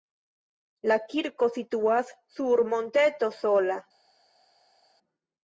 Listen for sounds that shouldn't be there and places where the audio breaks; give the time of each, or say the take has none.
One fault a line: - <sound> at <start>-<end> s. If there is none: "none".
none